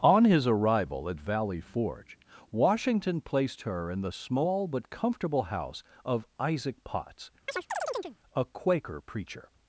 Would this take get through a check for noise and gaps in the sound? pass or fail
fail